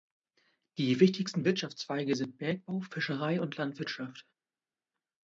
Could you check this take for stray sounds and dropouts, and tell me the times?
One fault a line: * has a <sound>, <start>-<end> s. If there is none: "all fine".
all fine